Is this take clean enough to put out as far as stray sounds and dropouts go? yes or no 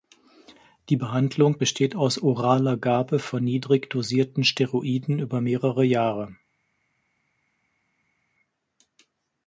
yes